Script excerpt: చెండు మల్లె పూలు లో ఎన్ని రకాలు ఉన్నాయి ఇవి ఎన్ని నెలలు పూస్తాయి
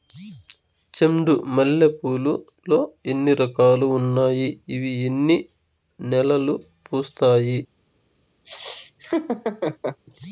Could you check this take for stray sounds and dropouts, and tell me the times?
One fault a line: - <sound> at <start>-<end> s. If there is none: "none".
- laugh at 8.4-10.0 s